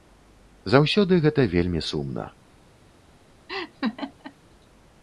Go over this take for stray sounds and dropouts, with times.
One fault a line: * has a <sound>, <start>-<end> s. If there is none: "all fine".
* has a laugh, 3.5-4.3 s